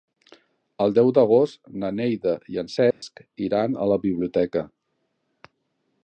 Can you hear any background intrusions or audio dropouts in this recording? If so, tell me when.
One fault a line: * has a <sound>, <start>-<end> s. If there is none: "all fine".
* has a dropout, 2.9-3.0 s